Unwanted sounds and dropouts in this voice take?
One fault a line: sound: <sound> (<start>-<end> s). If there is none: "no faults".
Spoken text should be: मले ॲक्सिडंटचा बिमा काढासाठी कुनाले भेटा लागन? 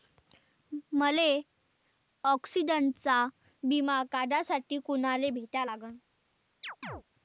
sound: chirp (6.6-7.0 s)